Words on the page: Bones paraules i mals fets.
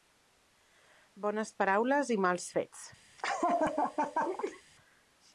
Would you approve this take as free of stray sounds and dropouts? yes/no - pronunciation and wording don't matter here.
no